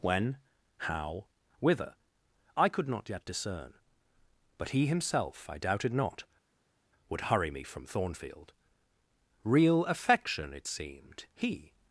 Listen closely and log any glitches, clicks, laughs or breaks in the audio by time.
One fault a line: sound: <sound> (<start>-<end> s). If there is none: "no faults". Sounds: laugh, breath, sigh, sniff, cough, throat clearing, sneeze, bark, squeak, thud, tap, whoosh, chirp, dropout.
no faults